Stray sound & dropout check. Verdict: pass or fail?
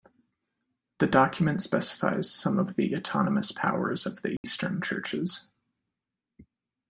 fail